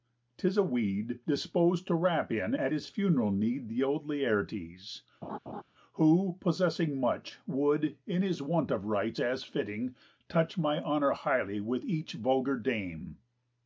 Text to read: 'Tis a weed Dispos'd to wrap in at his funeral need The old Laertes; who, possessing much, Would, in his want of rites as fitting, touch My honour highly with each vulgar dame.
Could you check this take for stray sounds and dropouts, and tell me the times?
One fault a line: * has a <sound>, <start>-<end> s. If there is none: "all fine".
* has a laugh, 5.2-5.6 s